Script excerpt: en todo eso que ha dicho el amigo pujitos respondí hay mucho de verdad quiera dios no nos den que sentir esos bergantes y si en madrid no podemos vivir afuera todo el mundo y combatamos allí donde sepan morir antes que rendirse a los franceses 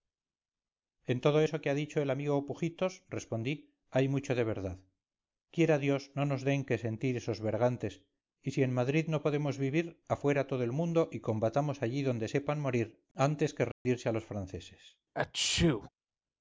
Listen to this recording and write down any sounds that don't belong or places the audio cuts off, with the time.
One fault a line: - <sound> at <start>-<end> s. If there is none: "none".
- dropout at 13.7-13.9 s
- sneeze at 15.1-15.9 s